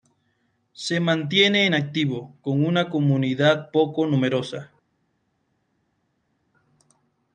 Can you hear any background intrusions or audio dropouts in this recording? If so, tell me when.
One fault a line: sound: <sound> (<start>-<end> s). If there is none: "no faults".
no faults